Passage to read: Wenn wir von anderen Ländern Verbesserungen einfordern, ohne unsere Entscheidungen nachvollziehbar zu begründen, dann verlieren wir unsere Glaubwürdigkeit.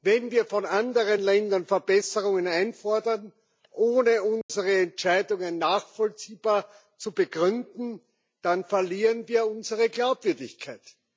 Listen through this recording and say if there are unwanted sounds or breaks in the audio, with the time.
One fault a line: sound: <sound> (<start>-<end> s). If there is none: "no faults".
sound: dropout (4.4-4.5 s)